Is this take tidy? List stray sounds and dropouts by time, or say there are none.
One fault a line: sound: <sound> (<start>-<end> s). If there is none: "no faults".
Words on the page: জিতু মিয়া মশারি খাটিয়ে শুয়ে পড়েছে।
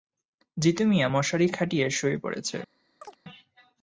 sound: chirp (3.0-3.2 s)